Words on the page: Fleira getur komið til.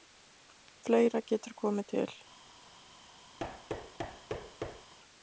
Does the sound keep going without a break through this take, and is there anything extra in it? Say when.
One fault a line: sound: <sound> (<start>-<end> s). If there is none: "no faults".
sound: thud (3.4-4.9 s)